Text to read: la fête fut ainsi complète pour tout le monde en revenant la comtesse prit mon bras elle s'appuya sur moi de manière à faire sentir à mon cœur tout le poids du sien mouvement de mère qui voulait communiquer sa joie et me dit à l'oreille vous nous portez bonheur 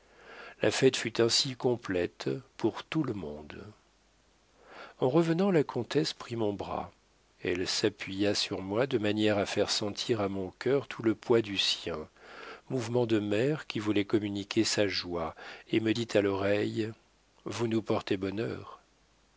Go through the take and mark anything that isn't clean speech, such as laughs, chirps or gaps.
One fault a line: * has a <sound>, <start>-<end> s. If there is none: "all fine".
all fine